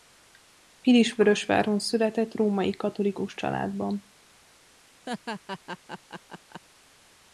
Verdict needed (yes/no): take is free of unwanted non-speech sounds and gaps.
no